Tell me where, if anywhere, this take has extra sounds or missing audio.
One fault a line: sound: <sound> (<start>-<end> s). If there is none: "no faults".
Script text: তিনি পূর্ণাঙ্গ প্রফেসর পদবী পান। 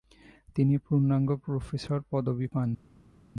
no faults